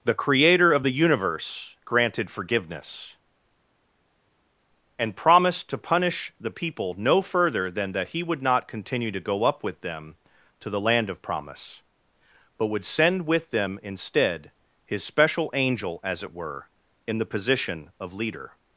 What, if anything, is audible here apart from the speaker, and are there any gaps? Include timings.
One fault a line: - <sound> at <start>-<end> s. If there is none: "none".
none